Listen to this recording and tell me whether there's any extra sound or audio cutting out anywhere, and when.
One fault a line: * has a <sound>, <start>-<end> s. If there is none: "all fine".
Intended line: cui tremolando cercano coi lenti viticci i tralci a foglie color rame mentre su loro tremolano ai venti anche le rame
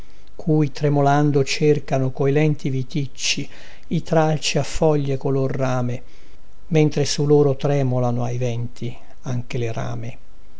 all fine